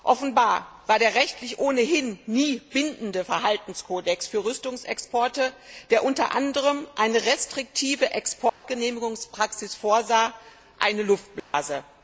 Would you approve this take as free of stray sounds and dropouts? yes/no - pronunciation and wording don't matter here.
no